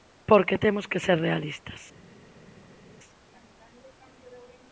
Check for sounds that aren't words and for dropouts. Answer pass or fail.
pass